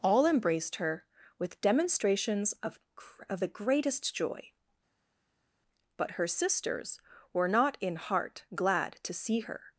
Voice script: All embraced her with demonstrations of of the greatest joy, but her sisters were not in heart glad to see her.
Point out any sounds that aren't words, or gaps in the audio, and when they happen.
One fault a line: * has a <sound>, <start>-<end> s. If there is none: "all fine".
all fine